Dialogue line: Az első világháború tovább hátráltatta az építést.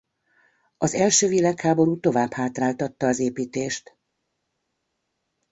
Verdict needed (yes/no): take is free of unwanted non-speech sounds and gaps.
yes